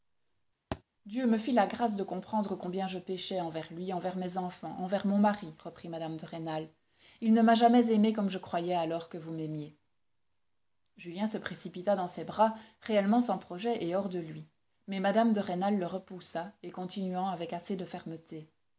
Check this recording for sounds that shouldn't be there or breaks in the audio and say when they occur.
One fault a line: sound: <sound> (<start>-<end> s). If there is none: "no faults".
sound: thud (0.7-0.8 s)